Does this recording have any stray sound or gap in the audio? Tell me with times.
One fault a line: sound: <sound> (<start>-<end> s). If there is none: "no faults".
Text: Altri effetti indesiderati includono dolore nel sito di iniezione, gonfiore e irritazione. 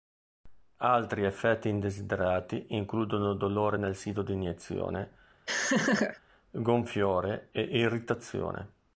sound: laugh (5.5-6.2 s)